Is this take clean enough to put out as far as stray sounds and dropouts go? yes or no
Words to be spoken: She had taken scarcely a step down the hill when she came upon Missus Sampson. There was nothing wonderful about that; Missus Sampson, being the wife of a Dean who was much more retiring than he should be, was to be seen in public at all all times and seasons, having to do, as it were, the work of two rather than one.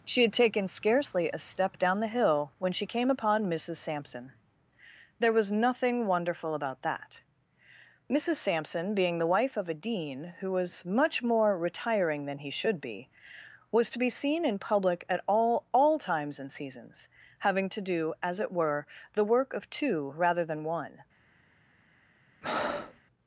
no